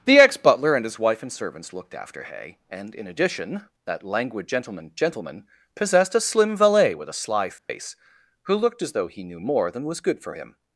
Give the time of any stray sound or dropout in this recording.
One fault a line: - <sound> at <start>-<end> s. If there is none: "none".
- dropout at 7.6-7.7 s